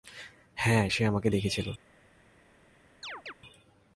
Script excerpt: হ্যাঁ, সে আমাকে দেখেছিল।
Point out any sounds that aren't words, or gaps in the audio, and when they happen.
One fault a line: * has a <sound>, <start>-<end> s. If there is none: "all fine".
* has a chirp, 3.0-3.3 s